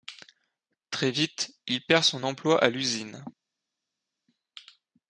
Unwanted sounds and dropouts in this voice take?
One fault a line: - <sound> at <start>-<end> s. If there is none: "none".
none